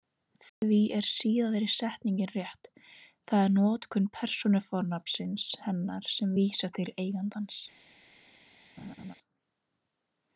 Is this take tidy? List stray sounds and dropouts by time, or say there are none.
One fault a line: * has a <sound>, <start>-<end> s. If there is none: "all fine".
* has a dropout, 0.5-0.6 s
* has a laugh, 8.8-9.2 s